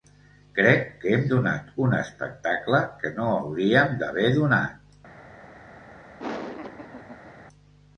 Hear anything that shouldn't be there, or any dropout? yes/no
yes